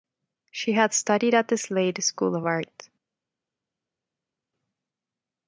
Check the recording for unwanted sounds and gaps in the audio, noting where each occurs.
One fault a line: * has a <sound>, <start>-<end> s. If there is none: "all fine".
all fine